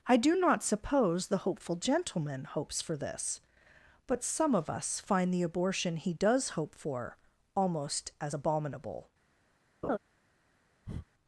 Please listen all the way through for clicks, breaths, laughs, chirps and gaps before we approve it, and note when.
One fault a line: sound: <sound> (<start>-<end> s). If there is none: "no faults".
sound: laugh (9.8-10.0 s)
sound: breath (10.9-11.1 s)